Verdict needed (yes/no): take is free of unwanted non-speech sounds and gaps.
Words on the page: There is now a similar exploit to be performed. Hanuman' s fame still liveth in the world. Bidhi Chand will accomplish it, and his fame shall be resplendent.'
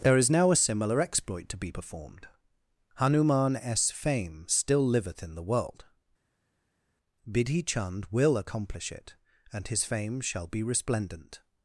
yes